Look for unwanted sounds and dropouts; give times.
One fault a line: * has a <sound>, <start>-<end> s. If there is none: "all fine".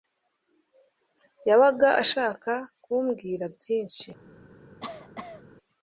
* has a cough, 4.8-5.4 s